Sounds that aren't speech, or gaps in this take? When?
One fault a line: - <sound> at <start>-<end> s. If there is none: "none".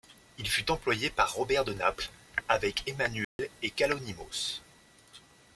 - dropout at 3.2-3.4 s